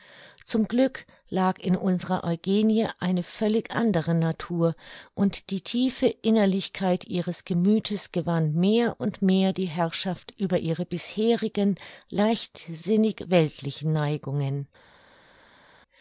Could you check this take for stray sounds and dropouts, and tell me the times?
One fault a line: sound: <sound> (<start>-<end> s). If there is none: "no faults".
no faults